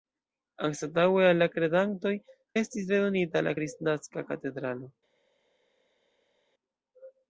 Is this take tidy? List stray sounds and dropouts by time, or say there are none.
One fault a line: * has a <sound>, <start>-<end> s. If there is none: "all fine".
all fine